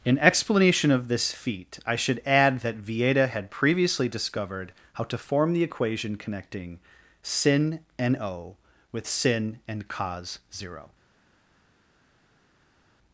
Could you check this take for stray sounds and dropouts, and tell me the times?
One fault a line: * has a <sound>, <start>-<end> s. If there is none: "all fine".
all fine